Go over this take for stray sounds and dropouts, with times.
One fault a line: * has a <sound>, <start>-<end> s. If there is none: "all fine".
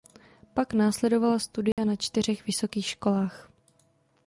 * has a dropout, 1.7-1.8 s